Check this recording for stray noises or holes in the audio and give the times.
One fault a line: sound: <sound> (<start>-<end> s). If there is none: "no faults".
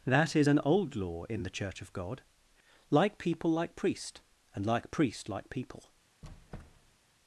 sound: squeak (6.2-7.0 s)